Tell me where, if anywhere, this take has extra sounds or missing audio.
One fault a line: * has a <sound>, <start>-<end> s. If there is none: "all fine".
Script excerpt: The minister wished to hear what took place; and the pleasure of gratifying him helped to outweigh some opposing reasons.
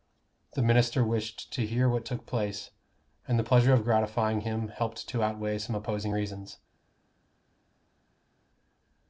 all fine